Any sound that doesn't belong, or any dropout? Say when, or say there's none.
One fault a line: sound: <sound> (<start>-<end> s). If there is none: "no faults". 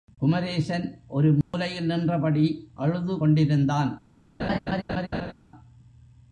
sound: dropout (1.4-1.5 s)
sound: laugh (4.4-5.3 s)